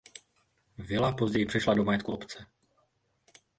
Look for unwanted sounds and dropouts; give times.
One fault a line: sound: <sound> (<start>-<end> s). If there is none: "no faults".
no faults